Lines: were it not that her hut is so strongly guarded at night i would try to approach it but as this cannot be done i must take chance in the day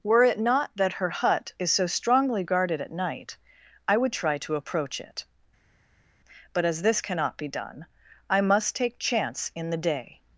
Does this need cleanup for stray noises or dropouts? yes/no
no